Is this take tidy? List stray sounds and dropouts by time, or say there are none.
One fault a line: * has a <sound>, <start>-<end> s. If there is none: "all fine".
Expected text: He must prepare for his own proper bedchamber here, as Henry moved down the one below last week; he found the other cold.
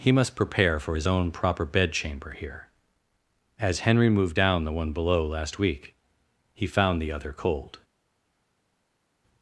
all fine